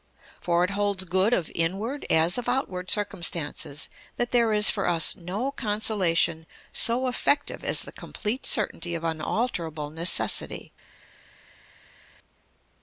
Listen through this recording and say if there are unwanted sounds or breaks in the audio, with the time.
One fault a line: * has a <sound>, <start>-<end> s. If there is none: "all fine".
all fine